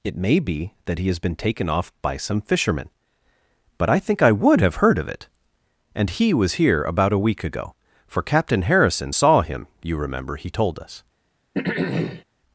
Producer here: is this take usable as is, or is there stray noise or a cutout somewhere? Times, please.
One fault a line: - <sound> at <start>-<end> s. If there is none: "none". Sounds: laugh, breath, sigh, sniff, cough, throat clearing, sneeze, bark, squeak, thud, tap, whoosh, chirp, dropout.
- throat clearing at 11.5-12.2 s